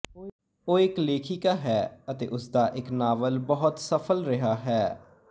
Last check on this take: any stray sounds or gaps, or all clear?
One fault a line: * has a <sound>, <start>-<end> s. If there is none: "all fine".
all fine